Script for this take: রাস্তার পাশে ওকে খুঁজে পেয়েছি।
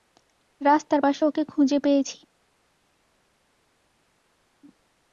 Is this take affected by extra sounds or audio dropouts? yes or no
no